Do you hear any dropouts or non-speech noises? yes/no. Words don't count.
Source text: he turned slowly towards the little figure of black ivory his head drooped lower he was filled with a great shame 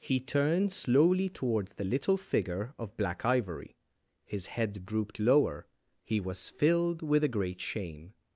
no